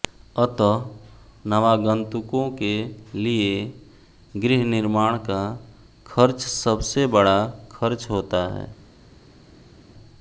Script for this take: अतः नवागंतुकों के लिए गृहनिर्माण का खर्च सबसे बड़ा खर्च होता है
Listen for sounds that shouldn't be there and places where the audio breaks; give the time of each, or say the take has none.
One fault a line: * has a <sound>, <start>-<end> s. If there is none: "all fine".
all fine